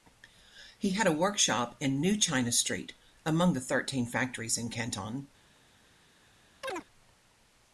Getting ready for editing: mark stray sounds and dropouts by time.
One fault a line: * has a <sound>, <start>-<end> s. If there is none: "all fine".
* has a chirp, 6.6-6.8 s